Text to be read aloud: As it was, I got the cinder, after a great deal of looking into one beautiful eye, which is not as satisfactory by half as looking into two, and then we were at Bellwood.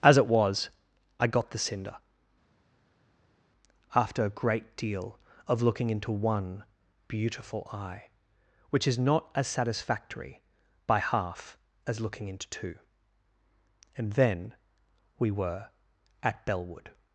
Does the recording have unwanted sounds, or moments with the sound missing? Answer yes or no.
no